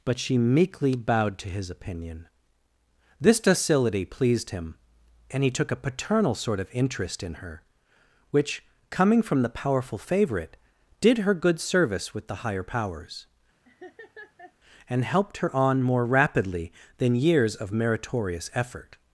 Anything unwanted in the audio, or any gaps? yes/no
yes